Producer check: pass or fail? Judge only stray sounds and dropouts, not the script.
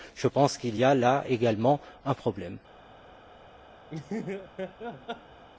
fail